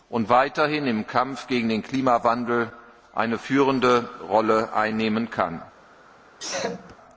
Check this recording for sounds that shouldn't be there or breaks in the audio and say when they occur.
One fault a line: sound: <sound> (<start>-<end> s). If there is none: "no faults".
sound: sneeze (6.4-7.0 s)